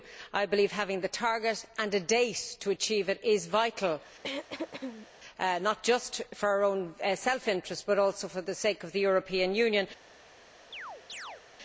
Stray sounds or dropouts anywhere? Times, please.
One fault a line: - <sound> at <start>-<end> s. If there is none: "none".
- throat clearing at 4.2-5.1 s
- chirp at 10.7-11.4 s